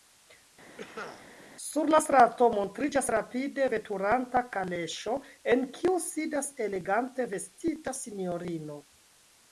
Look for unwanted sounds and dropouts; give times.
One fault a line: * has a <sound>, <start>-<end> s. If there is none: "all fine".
* has a cough, 0.8-1.3 s